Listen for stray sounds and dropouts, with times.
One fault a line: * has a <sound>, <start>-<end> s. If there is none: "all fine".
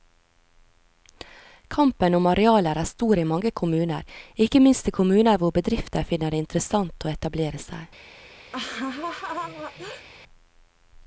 * has a laugh, 8.5-10.1 s